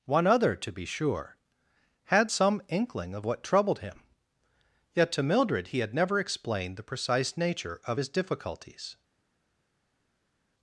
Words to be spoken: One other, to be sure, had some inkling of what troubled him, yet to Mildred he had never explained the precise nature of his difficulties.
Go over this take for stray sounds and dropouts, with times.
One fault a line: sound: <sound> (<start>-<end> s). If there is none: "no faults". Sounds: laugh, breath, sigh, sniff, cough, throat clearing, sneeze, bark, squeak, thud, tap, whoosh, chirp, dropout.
no faults